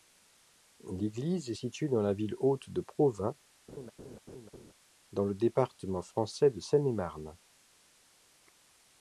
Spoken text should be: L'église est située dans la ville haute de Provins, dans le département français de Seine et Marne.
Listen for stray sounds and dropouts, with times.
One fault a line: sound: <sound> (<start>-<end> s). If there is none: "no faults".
sound: laugh (3.7-4.7 s)